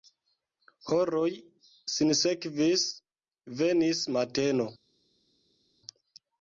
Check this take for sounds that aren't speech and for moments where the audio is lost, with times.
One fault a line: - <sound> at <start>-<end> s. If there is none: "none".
none